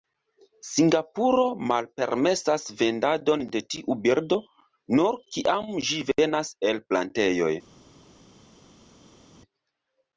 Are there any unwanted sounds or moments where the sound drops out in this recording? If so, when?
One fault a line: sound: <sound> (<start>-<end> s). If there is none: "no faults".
no faults